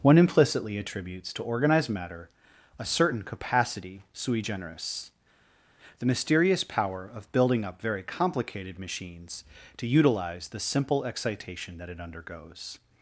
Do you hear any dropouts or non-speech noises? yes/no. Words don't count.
no